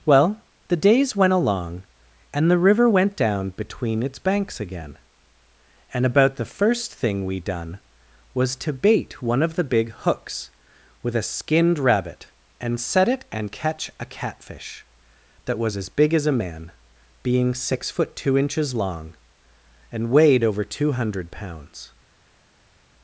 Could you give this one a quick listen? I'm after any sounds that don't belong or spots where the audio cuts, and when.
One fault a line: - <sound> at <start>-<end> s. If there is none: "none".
none